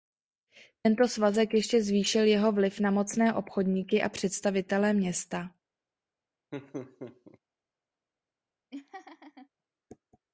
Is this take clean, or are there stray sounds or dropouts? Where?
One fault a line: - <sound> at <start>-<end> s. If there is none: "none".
- laugh at 6.5-7.4 s
- laugh at 8.7-9.5 s